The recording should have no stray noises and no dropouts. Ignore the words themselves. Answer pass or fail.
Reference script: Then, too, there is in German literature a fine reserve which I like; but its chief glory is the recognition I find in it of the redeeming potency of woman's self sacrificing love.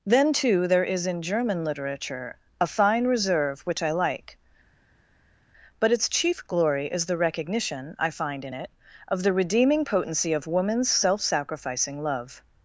pass